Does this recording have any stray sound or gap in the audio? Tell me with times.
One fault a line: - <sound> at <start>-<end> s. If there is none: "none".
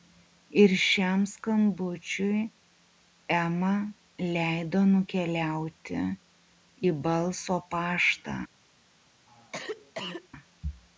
- cough at 9.3-10.3 s